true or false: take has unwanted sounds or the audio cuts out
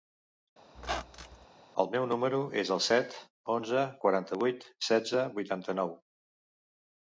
true